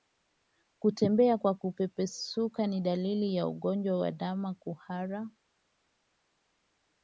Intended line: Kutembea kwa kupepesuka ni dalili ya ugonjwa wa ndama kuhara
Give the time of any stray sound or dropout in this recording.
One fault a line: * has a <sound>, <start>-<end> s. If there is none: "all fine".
all fine